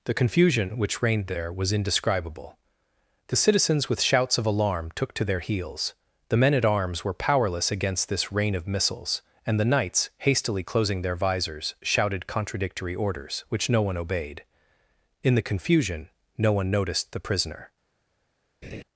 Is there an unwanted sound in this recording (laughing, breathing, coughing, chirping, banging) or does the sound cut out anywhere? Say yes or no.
yes